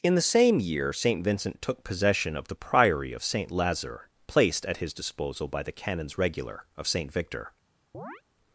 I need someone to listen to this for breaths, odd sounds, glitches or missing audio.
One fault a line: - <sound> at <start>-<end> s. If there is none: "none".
- chirp at 7.9-8.2 s